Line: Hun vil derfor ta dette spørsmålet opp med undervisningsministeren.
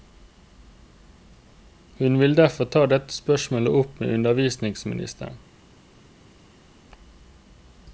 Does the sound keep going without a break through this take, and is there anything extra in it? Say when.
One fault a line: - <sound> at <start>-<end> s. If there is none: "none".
none